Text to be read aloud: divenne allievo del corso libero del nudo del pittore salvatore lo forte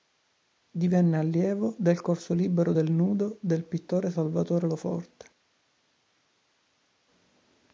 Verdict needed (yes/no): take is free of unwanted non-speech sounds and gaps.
yes